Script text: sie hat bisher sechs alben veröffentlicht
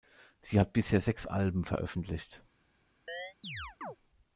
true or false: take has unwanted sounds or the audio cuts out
true